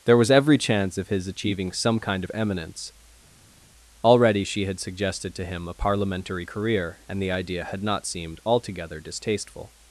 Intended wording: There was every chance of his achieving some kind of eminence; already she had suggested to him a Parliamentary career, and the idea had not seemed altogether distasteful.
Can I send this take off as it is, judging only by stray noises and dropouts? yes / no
yes